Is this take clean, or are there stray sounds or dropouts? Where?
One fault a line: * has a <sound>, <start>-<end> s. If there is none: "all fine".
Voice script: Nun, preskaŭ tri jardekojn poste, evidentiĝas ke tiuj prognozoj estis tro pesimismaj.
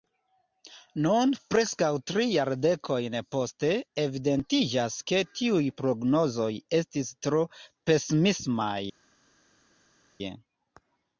all fine